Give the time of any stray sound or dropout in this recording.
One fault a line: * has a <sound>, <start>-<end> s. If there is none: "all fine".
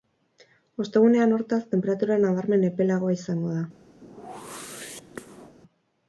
* has a whoosh, 4.0-5.6 s